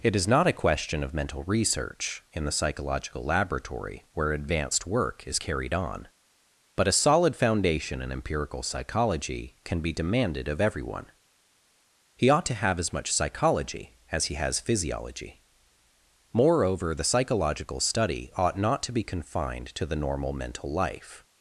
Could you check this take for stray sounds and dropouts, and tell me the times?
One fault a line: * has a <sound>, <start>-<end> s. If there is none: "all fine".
all fine